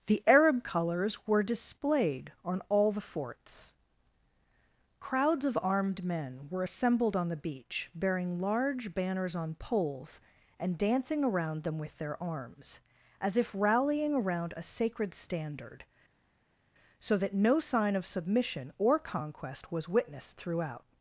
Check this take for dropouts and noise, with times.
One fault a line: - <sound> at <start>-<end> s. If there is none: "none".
none